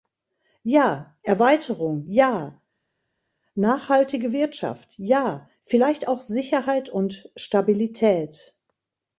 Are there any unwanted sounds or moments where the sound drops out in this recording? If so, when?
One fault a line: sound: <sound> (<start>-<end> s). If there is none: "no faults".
no faults